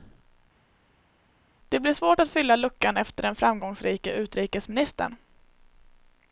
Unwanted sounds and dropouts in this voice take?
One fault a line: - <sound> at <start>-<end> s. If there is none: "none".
none